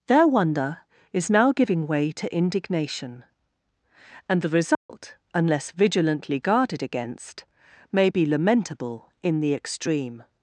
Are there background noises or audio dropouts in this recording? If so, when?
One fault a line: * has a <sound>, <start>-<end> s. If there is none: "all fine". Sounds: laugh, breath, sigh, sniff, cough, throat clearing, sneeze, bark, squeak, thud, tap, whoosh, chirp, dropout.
* has a dropout, 4.7-4.9 s